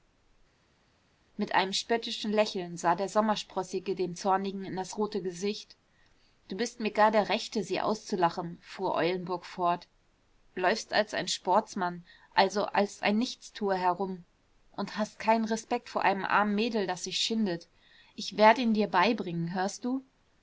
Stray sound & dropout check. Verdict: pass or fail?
pass